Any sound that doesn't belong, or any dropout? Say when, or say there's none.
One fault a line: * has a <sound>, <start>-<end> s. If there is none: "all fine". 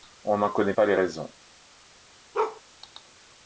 * has a bark, 2.3-2.6 s